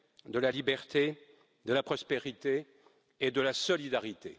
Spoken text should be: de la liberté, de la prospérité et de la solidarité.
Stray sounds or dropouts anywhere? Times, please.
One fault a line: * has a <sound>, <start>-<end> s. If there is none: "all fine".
all fine